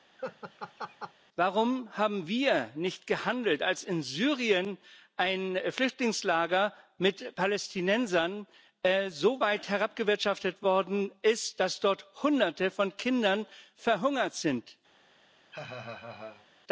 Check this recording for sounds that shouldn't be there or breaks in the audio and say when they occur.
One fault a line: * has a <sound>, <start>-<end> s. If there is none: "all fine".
* has a laugh, 0.2-1.1 s
* has a laugh, 15.5-16.5 s